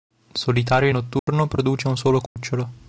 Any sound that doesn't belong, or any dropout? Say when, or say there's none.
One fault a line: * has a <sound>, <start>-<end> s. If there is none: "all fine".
* has a dropout, 1.2-1.3 s
* has a dropout, 2.3-2.4 s